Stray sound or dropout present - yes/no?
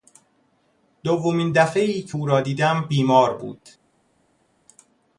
no